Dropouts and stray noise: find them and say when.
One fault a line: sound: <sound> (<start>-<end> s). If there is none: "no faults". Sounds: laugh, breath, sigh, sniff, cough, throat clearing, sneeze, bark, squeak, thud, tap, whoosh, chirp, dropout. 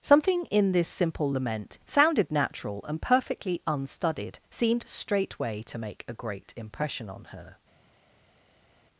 no faults